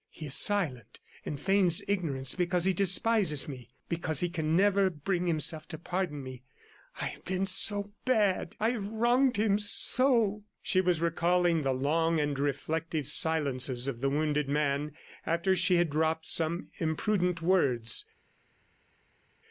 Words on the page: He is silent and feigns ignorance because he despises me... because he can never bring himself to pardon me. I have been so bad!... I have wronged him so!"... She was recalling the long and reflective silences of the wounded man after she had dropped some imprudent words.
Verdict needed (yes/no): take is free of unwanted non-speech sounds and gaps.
yes